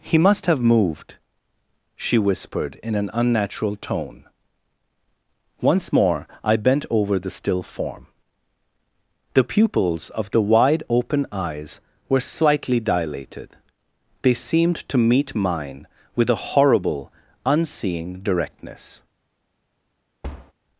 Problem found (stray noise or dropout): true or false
true